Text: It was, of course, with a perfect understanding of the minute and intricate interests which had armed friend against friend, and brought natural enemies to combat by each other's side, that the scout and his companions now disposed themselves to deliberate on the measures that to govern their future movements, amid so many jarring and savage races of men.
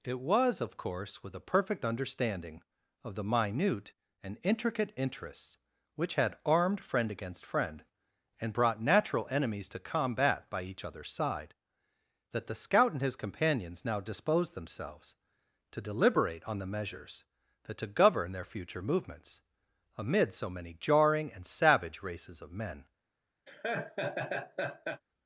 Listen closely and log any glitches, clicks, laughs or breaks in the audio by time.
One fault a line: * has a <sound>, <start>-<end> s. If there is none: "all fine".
* has a laugh, 23.5-25.0 s